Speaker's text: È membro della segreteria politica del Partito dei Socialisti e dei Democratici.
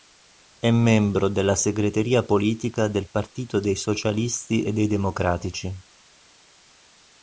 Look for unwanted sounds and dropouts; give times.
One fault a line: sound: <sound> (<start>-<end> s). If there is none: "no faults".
no faults